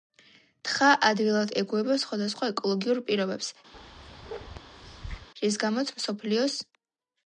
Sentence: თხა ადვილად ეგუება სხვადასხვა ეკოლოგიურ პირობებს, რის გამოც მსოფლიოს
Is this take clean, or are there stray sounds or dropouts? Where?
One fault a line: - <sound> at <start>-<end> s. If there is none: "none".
- bark at 3.7-5.3 s